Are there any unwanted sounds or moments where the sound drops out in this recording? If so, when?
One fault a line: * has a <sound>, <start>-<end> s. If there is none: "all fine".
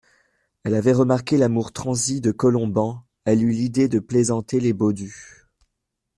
all fine